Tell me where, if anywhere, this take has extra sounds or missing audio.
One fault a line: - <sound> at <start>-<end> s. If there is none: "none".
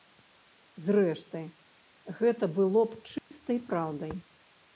- dropout at 3.2-3.3 s